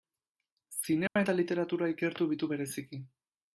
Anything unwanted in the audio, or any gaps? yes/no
yes